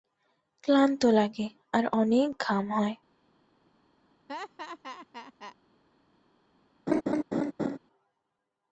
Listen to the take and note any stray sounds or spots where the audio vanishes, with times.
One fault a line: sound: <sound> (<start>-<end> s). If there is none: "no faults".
sound: laugh (4.3-5.6 s)
sound: laugh (6.9-7.8 s)